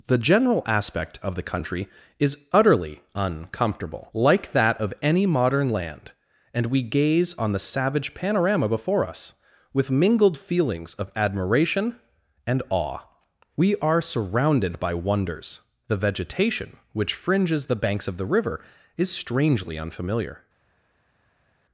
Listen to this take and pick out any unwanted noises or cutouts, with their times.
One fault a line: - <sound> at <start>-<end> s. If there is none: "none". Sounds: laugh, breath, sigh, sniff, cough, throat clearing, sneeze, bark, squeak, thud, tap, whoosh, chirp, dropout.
none